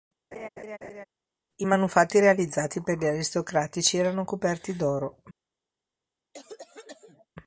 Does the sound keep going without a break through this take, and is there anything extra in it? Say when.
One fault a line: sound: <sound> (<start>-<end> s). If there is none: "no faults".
sound: laugh (0.3-1.1 s)
sound: cough (6.3-7.3 s)